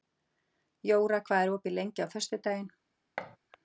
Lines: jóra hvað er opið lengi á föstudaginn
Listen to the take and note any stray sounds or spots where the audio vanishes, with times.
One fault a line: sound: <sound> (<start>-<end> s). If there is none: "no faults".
sound: thud (3.2-3.4 s)